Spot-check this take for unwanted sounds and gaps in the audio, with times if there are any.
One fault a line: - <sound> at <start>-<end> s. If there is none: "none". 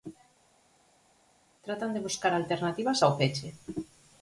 none